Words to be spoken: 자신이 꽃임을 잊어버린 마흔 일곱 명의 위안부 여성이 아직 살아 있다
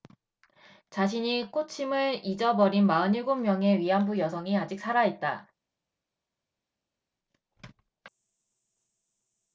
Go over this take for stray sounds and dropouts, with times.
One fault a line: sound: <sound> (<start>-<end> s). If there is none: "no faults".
no faults